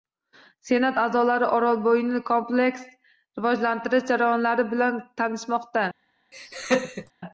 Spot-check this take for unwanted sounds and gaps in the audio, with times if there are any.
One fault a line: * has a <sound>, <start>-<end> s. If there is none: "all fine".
* has a laugh, 6.3-7.1 s